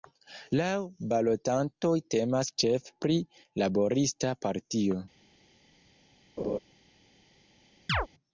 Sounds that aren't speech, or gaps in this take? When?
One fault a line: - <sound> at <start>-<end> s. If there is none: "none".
- laugh at 6.4-6.6 s
- chirp at 7.9-8.1 s